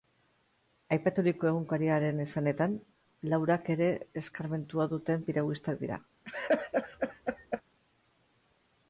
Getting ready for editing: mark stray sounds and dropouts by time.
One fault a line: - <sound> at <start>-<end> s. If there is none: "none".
- laugh at 6.2-7.6 s